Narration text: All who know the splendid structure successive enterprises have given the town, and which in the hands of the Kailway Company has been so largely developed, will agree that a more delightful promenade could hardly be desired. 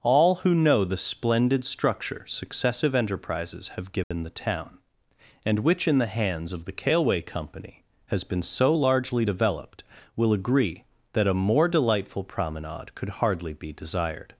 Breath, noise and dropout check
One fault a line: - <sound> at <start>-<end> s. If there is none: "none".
- dropout at 4.0-4.1 s